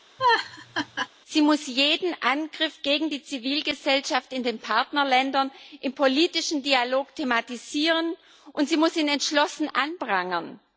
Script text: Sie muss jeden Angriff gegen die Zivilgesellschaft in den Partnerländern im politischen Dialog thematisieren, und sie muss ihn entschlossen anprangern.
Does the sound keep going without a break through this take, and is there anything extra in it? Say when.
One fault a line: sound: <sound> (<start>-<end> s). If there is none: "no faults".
sound: laugh (0.2-1.1 s)